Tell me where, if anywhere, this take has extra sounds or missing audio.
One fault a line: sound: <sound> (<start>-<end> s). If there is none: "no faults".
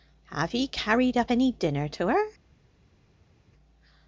no faults